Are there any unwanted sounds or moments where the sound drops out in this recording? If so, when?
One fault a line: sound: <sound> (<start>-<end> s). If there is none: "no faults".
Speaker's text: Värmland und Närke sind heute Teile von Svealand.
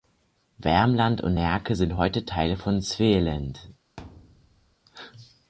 sound: thud (4.0-4.8 s)